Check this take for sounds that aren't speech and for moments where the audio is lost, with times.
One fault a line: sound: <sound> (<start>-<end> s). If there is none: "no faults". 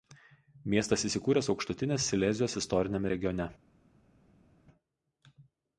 no faults